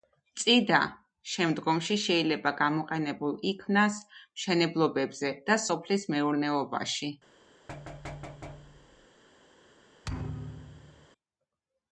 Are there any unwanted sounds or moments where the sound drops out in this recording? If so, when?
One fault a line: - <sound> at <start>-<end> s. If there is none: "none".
- thud at 7.7-9.1 s
- thud at 10.0-11.1 s